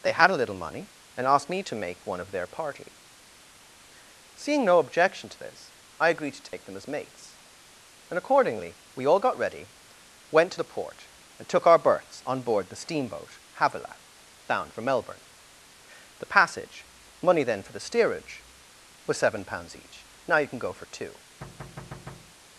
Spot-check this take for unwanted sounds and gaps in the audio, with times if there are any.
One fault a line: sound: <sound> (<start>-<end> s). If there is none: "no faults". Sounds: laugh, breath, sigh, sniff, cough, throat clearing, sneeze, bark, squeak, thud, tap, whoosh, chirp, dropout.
sound: dropout (6.5-6.5 s)
sound: thud (21.4-22.4 s)